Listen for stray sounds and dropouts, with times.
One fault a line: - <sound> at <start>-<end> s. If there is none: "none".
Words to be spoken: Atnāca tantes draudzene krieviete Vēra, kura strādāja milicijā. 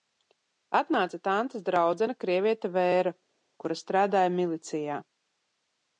none